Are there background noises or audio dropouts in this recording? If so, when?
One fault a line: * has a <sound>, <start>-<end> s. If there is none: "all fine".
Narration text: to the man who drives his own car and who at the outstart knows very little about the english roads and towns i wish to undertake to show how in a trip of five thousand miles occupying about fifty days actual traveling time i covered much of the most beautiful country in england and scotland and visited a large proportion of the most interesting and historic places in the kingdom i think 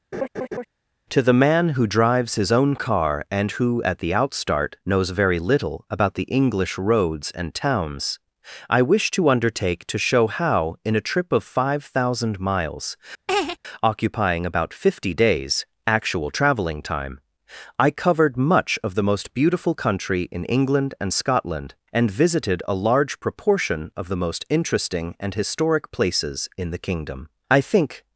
* has a laugh, 0.1-0.6 s
* has a laugh, 13.3-13.6 s